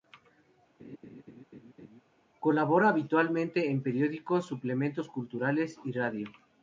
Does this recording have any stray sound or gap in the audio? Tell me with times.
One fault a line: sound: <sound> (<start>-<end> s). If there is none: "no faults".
sound: laugh (0.8-2.0 s)